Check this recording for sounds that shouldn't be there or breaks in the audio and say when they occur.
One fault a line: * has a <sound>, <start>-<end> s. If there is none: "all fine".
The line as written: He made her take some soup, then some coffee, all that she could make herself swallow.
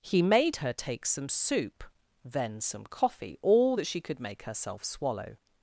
all fine